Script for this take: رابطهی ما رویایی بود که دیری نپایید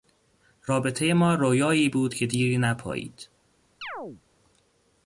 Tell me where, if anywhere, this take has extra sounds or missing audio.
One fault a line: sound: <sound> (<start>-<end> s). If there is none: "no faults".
sound: chirp (3.8-4.2 s)